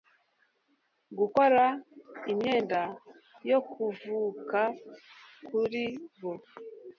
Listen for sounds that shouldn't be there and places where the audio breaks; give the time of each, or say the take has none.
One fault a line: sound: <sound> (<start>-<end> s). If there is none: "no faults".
no faults